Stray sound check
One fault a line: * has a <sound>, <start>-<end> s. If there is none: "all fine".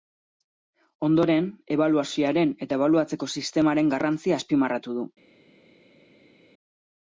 all fine